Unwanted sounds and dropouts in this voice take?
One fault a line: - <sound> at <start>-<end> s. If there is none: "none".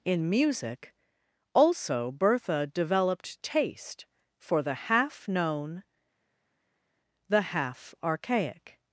none